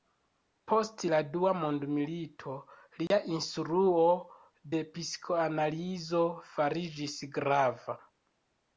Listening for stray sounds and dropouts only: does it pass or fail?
fail